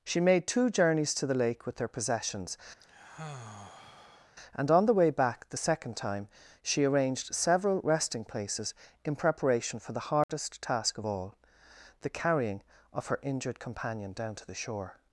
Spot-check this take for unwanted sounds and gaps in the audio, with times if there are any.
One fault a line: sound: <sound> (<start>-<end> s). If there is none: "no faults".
sound: sigh (2.8-4.4 s)
sound: dropout (10.2-10.3 s)